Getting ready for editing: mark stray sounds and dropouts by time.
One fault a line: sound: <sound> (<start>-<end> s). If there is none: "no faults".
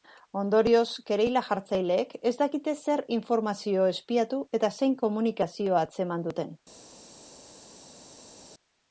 no faults